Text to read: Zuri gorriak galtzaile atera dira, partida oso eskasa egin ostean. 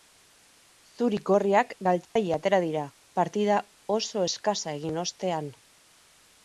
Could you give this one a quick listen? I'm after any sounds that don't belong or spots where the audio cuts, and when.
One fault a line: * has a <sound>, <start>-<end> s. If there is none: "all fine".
* has a dropout, 2.0-2.2 s